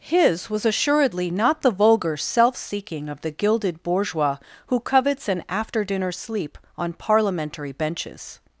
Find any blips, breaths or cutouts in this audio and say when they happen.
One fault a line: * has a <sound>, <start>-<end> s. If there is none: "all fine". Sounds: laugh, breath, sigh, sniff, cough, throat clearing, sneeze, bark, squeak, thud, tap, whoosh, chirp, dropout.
all fine